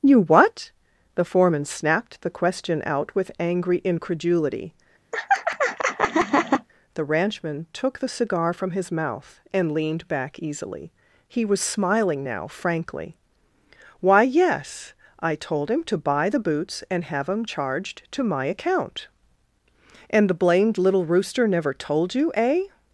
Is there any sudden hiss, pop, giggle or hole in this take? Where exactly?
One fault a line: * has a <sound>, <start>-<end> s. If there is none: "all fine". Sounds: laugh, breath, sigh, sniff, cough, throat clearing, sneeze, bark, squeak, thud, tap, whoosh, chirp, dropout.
* has a laugh, 5.1-6.7 s